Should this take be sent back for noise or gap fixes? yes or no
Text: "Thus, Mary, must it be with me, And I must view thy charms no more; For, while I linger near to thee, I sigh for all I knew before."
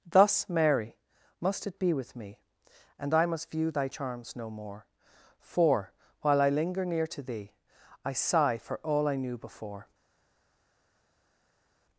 no